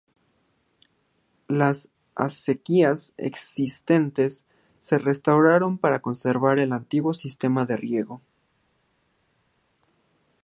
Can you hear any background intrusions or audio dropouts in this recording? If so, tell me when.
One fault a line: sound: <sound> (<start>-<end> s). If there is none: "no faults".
no faults